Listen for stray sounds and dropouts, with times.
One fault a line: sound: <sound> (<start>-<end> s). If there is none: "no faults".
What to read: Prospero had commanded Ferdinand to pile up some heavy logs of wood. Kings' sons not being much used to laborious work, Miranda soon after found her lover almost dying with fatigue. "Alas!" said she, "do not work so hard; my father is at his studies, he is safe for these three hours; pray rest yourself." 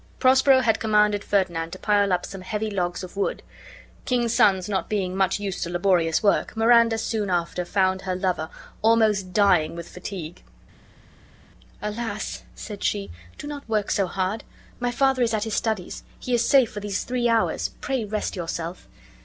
no faults